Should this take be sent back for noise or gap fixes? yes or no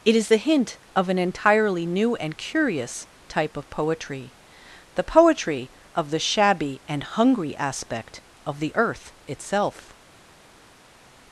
no